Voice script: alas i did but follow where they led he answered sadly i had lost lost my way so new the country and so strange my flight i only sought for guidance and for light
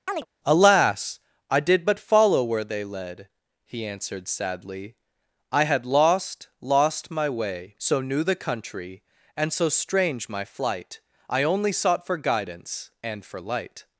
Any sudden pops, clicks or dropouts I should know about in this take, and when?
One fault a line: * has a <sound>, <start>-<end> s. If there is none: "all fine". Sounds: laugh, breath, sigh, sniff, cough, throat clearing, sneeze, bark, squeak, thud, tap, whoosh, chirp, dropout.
* has a chirp, 0.1-0.3 s